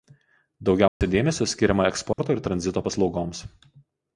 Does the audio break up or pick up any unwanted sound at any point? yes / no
yes